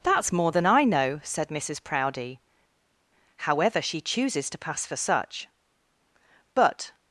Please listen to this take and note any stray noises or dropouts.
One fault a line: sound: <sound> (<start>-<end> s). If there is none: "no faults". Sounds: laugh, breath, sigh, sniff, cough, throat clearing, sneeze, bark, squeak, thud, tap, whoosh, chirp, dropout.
no faults